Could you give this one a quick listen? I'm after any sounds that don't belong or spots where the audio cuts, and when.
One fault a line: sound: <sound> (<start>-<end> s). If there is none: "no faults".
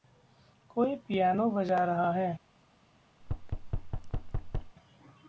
sound: thud (3.2-4.8 s)